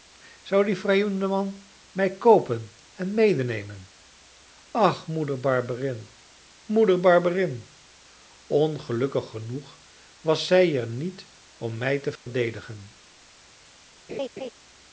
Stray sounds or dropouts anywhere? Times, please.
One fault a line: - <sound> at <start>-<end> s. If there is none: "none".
- dropout at 12.2-12.3 s
- laugh at 14.1-14.5 s